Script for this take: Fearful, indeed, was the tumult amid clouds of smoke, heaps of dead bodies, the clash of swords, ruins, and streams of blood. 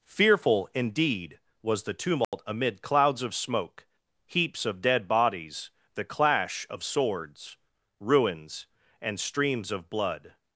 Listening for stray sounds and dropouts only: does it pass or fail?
fail